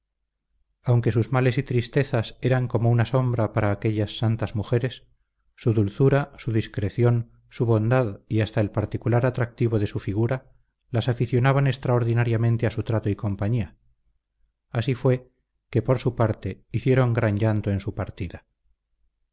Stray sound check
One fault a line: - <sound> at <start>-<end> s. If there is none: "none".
none